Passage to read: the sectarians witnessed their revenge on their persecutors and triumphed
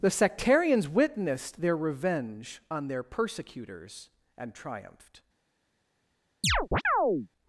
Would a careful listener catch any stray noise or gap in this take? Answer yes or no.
yes